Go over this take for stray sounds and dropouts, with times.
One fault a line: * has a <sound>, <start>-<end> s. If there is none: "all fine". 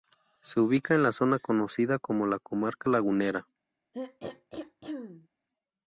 * has a throat clearing, 3.9-5.3 s